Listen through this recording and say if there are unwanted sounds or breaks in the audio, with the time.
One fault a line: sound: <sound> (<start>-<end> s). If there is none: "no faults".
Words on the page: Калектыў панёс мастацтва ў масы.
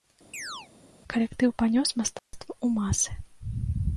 sound: chirp (0.3-0.7 s)
sound: dropout (2.2-2.3 s)